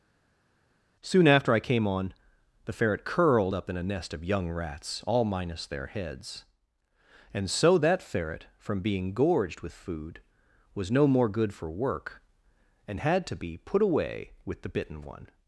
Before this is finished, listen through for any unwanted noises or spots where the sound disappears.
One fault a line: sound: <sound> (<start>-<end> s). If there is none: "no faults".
no faults